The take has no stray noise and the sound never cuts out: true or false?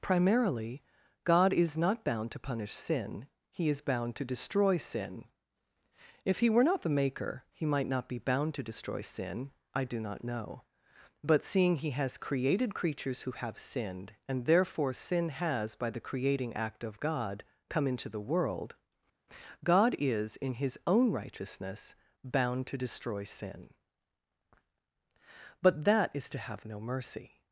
true